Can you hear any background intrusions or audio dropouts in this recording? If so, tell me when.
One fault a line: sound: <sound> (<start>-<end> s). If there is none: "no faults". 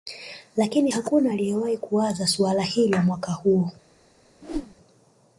sound: whoosh (4.4-4.8 s)